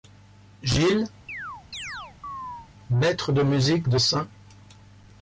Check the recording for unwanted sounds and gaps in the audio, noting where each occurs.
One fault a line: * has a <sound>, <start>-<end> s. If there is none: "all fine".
* has a chirp, 1.3-2.7 s